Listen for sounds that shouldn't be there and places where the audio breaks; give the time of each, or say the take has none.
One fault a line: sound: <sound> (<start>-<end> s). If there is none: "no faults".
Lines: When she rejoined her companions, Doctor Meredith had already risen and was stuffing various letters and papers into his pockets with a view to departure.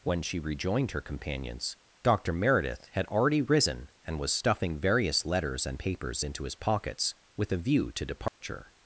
sound: dropout (8.3-8.4 s)